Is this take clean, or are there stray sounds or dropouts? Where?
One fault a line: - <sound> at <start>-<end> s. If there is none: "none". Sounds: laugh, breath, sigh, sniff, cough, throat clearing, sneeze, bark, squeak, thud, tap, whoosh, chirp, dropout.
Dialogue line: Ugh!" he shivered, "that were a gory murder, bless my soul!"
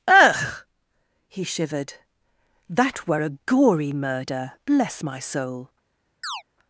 - chirp at 6.2-6.4 s